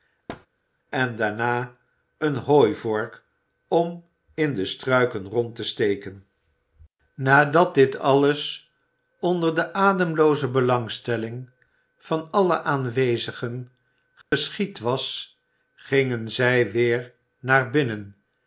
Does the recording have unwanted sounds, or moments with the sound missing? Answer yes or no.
yes